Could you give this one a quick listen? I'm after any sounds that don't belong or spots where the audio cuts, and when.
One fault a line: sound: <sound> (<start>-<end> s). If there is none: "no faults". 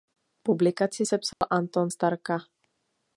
sound: dropout (1.3-1.4 s)